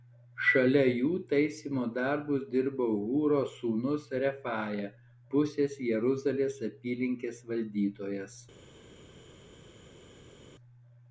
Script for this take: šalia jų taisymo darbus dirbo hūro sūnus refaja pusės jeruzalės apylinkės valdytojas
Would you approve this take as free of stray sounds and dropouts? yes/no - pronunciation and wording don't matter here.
yes